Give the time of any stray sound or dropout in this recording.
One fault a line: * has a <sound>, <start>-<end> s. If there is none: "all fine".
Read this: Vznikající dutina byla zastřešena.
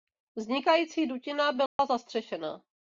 * has a dropout, 1.7-1.8 s